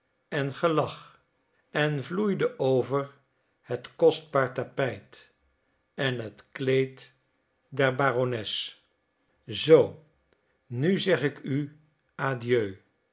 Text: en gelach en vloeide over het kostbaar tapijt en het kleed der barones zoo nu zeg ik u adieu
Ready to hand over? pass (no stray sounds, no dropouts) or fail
pass